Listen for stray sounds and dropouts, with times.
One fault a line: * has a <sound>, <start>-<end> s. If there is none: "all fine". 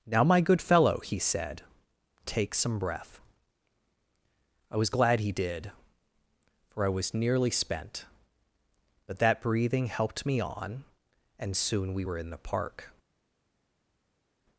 all fine